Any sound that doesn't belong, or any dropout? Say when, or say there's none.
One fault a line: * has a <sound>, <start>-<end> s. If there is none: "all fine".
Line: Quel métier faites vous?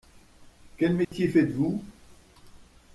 * has a dropout, 1.0-1.1 s